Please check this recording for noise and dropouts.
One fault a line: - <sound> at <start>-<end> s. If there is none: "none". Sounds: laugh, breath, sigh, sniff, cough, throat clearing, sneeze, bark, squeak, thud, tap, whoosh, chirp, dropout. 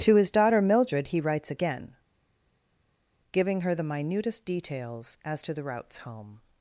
none